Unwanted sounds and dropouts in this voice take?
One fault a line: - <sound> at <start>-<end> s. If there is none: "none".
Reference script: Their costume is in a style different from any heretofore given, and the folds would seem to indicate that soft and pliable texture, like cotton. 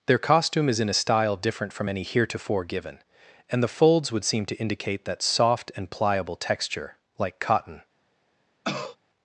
- cough at 8.6-9.0 s